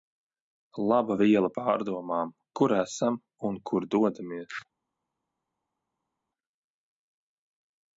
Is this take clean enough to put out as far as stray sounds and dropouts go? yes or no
yes